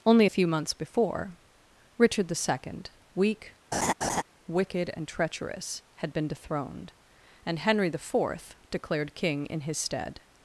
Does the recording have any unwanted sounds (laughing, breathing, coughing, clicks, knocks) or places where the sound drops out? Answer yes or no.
yes